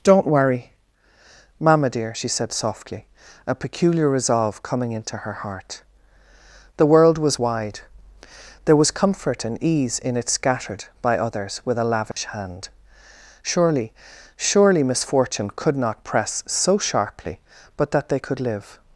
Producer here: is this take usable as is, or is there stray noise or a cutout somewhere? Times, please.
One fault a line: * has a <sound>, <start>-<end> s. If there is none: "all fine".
* has a dropout, 12.1-12.2 s